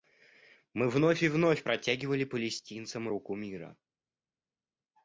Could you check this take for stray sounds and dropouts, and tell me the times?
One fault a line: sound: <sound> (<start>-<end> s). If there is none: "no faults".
no faults